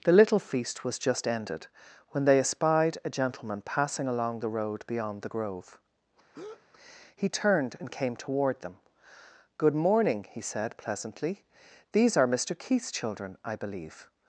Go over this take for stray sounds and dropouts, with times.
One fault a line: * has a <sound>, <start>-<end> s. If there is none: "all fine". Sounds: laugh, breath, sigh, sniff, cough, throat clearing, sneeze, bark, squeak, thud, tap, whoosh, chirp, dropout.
* has a breath, 6.3-6.6 s